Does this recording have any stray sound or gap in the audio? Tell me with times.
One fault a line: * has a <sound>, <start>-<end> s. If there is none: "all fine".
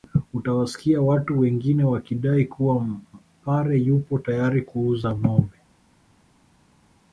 all fine